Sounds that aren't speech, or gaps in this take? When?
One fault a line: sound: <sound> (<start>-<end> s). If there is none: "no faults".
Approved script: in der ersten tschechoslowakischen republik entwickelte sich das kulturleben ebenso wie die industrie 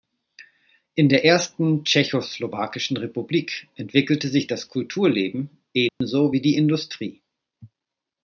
sound: dropout (5.9-6.0 s)